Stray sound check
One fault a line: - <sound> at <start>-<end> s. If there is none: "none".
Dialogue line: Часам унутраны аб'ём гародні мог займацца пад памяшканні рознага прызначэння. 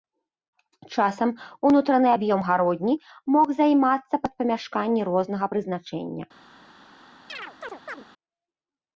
- chirp at 7.3-8.1 s